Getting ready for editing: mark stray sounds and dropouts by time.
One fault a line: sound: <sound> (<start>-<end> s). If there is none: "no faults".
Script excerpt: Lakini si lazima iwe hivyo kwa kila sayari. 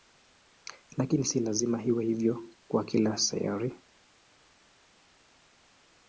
no faults